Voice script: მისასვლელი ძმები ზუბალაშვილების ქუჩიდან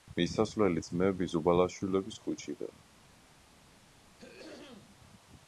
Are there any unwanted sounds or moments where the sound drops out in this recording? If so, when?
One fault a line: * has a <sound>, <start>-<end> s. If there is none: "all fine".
* has a throat clearing, 3.9-5.0 s